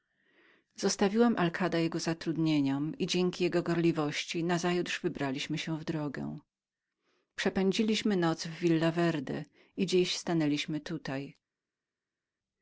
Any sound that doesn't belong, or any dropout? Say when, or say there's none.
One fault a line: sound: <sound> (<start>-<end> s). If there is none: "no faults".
no faults